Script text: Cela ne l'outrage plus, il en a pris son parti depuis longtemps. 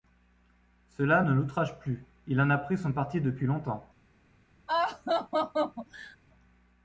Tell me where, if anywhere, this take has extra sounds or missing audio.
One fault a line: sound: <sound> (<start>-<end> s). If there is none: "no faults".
sound: laugh (4.7-6.2 s)